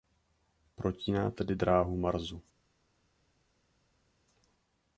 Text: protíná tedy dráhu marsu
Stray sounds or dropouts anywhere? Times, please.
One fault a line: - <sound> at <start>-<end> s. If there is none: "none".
none